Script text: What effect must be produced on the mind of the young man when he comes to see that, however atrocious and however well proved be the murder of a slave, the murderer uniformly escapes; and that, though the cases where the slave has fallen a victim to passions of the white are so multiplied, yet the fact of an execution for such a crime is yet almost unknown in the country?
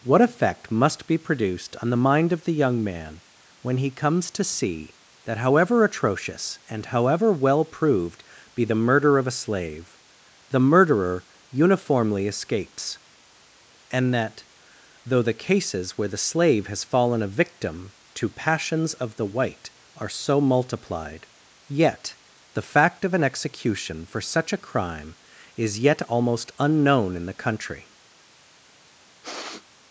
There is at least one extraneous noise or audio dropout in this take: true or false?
true